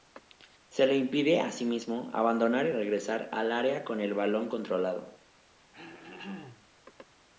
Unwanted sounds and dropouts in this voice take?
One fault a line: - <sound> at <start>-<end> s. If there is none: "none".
- throat clearing at 5.7-6.7 s